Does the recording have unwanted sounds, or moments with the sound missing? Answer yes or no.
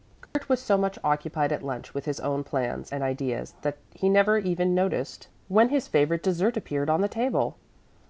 yes